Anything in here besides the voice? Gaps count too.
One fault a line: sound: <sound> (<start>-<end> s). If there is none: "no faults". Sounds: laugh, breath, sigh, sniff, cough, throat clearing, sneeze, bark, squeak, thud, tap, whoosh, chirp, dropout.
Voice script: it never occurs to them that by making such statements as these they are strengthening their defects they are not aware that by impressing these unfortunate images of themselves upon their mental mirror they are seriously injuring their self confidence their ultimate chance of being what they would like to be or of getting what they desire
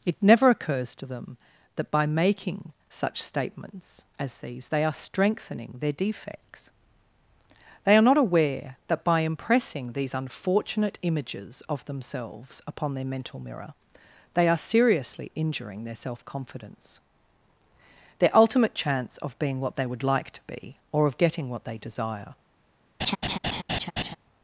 sound: laugh (23.0-24.2 s)